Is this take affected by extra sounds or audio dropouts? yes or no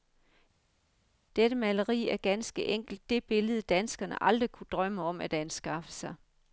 no